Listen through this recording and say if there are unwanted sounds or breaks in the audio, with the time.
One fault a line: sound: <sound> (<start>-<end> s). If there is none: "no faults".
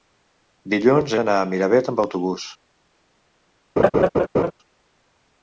sound: laugh (3.8-4.5 s)